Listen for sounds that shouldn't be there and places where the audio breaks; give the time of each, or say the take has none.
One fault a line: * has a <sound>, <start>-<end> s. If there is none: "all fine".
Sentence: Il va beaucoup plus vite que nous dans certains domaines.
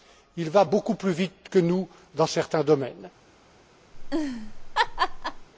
* has a laugh, 3.9-5.5 s